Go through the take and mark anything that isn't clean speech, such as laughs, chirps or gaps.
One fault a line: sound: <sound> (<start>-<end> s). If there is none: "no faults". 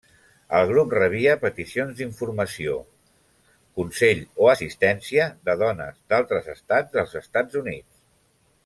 no faults